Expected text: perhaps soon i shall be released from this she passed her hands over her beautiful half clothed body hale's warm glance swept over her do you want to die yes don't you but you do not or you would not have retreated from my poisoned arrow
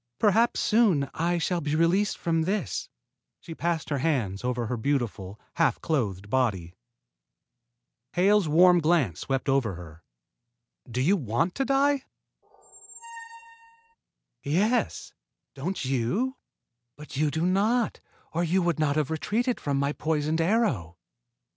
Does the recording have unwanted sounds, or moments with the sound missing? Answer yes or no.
yes